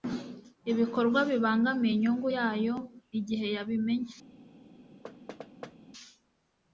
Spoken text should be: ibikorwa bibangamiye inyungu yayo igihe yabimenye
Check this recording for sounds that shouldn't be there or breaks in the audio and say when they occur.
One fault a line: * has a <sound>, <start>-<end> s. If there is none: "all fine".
* has a thud, 5.0-5.8 s